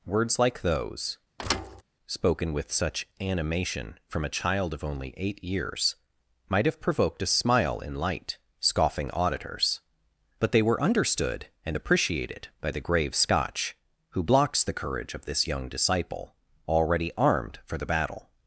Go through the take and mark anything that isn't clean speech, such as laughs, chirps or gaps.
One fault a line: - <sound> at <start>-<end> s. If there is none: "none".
- thud at 1.4-1.8 s